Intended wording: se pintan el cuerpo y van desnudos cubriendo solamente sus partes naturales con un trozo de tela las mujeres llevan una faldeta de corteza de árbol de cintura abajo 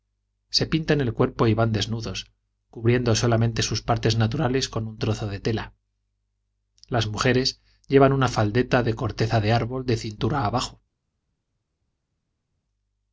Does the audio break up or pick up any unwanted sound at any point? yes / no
no